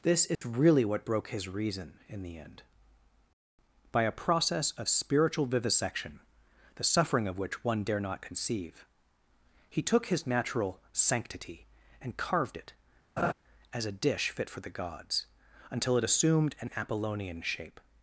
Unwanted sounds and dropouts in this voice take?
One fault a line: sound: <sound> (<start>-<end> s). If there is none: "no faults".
sound: dropout (0.3-0.4 s)
sound: laugh (13.2-13.3 s)